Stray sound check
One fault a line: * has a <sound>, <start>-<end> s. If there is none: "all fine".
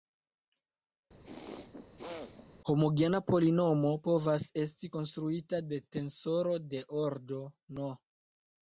* has a throat clearing, 1.2-2.5 s